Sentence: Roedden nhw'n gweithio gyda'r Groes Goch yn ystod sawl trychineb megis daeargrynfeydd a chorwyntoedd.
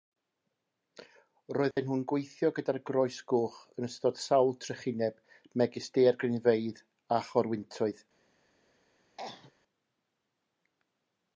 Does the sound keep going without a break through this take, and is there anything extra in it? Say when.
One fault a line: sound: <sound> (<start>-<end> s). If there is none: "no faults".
sound: dropout (1.7-1.8 s)
sound: cough (9.2-9.5 s)